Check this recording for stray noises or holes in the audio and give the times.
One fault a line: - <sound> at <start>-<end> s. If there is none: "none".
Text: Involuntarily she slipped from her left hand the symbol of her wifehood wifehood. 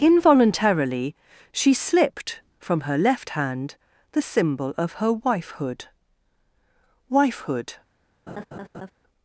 - laugh at 8.3-8.9 s